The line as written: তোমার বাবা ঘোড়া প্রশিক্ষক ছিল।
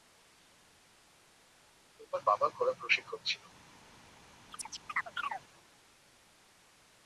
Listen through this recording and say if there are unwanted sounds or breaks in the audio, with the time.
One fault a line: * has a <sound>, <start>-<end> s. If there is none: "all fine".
* has a chirp, 4.5-5.4 s